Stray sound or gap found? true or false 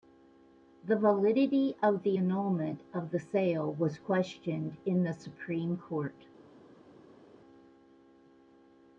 false